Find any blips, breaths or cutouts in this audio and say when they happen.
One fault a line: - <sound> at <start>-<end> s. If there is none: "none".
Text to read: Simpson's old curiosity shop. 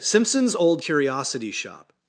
none